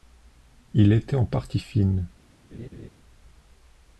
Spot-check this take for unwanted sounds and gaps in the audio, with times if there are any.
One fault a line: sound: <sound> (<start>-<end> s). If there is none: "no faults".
sound: laugh (2.5-2.9 s)